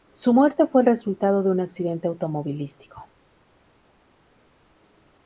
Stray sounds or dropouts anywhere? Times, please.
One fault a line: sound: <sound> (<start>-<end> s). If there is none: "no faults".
no faults